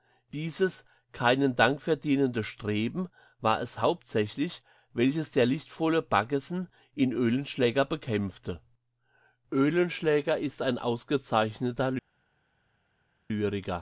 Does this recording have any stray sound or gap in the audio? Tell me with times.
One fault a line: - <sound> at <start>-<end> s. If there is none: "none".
none